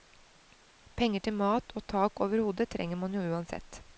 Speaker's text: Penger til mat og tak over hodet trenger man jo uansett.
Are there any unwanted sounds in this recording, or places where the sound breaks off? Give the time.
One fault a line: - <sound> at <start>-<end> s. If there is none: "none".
none